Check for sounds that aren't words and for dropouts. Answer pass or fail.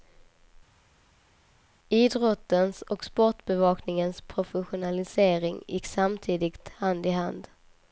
pass